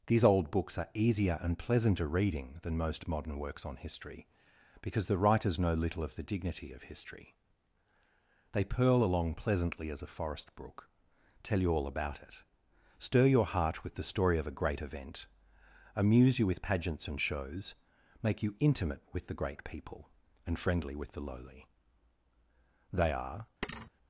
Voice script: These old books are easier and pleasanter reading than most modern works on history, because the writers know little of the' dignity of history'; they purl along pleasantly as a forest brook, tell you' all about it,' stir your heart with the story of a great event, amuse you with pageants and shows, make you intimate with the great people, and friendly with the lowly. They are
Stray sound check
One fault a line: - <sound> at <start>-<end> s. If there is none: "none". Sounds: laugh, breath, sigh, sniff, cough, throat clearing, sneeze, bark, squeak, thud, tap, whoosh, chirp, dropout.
- thud at 23.6-23.9 s